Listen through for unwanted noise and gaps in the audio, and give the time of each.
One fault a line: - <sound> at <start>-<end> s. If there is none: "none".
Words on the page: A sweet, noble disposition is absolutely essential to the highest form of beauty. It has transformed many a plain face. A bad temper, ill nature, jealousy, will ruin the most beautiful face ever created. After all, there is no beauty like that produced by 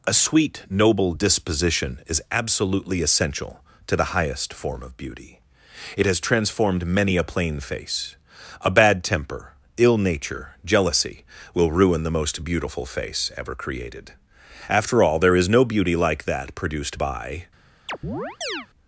- chirp at 17.9-18.7 s